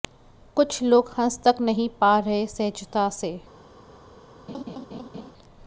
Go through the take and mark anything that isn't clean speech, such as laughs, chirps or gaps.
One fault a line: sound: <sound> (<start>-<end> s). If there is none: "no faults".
sound: laugh (4.5-5.3 s)